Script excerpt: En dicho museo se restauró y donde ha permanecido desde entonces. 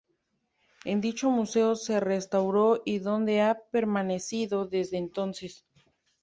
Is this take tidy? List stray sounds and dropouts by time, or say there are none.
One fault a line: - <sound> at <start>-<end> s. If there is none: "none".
none